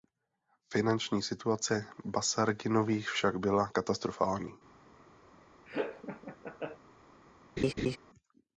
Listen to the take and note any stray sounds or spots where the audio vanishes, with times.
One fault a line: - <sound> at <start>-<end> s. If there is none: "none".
- laugh at 5.7-6.8 s
- laugh at 7.6-8.0 s